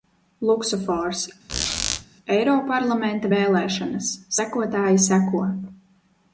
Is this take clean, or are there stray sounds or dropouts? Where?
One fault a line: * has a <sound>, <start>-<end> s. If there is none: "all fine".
* has a squeak, 1.5-2.1 s